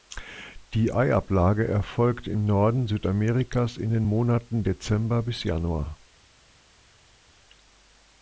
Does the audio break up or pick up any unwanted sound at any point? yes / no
no